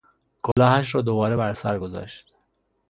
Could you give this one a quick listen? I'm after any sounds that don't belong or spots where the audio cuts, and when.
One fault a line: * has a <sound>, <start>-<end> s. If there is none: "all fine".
* has a dropout, 0.5-0.6 s